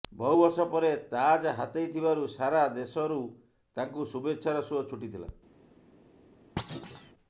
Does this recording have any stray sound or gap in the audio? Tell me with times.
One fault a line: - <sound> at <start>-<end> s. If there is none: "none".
- thud at 6.6-7.1 s